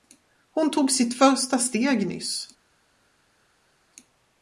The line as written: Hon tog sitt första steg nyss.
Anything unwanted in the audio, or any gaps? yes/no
no